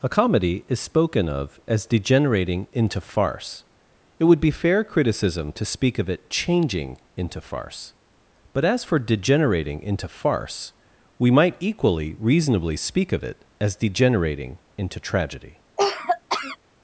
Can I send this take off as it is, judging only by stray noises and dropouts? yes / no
no